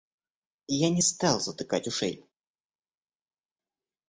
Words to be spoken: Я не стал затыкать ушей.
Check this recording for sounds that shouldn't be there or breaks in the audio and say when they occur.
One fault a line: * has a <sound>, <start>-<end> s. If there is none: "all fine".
all fine